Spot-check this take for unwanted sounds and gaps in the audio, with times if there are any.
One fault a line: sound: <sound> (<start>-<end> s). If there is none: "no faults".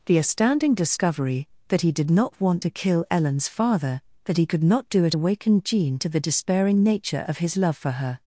no faults